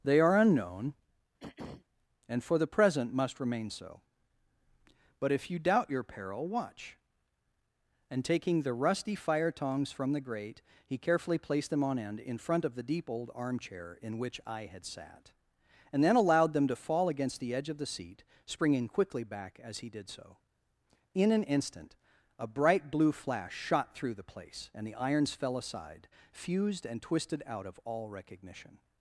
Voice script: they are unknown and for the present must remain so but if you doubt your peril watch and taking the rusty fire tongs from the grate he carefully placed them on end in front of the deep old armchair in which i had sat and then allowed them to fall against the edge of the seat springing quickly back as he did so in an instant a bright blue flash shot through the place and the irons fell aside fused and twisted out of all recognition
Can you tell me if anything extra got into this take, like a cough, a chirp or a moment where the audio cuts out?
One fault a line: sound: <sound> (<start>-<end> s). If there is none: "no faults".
sound: throat clearing (1.4-1.9 s)